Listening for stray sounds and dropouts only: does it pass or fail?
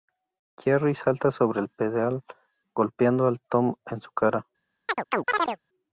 fail